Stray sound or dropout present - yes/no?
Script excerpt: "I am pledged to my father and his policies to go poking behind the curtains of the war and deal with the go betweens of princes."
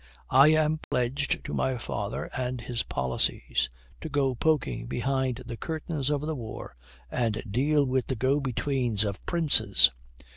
yes